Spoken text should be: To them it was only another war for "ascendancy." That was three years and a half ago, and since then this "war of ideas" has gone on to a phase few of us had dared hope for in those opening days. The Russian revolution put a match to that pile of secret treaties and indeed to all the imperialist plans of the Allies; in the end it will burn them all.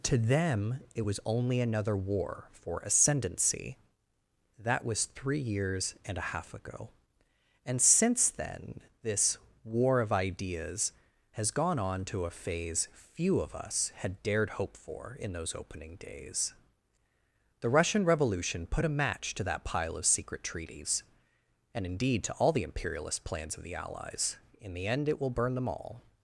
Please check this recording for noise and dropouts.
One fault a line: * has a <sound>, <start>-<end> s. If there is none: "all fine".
all fine